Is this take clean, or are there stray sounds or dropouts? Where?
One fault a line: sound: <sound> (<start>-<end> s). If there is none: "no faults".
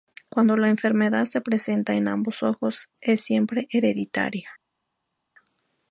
no faults